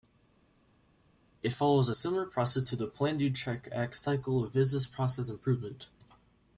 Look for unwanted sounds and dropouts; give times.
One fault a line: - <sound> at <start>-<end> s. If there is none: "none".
none